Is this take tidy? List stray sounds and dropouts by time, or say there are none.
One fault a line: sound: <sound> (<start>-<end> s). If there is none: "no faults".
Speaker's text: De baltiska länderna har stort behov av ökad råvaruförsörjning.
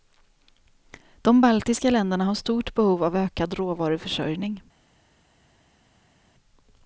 no faults